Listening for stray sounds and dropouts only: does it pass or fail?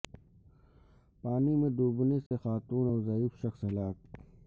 fail